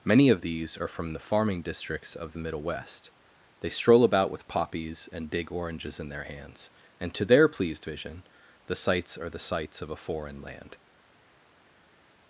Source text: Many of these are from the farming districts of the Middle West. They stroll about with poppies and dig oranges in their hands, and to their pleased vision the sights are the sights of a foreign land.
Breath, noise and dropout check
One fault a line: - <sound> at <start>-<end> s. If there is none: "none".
none